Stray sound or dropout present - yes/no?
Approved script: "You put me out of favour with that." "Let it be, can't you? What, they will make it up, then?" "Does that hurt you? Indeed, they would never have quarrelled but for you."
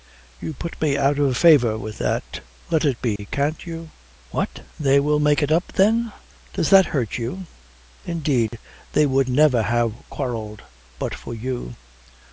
yes